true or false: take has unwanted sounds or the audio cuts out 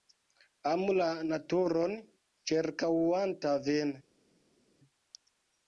false